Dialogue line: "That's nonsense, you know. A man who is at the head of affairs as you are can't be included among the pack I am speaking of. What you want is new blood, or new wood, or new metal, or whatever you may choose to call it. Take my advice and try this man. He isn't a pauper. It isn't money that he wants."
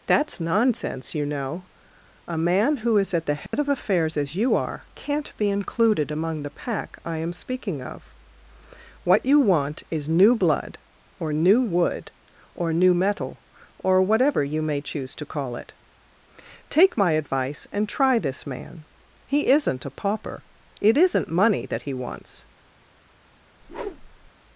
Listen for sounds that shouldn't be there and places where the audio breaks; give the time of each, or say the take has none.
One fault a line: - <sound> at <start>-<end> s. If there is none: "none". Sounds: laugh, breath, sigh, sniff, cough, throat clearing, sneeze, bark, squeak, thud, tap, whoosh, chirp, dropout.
- dropout at 3.5-3.5 s
- whoosh at 23.6-24.3 s